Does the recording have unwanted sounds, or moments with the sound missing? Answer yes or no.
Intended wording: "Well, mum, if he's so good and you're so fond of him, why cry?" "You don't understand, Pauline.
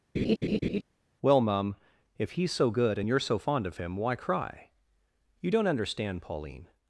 yes